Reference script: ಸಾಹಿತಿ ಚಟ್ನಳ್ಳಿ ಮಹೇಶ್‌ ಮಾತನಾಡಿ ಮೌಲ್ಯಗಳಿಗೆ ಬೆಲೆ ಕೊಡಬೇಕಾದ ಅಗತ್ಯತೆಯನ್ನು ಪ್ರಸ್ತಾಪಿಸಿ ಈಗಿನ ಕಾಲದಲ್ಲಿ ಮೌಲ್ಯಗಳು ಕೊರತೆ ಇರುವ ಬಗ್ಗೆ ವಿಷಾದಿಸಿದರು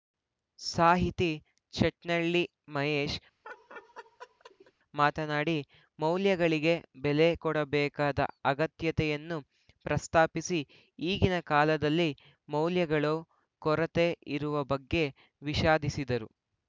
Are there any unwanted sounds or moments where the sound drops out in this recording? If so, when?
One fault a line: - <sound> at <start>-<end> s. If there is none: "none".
- laugh at 3.4-4.7 s